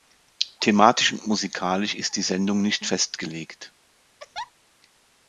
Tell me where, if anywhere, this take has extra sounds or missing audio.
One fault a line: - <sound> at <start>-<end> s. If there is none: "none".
- laugh at 4.2-4.5 s